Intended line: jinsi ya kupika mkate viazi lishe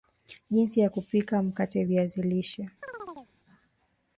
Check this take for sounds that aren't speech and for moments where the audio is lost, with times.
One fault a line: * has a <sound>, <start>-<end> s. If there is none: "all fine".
* has a chirp, 2.8-3.3 s